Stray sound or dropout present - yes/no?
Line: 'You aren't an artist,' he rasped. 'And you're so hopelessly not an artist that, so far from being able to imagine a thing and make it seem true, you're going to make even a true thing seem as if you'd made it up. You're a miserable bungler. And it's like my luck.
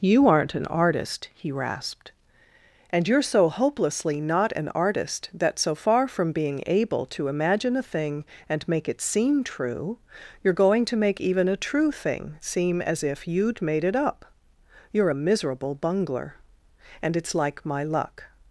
no